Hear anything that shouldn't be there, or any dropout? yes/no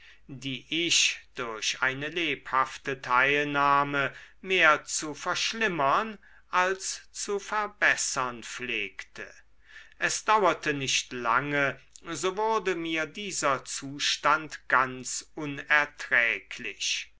no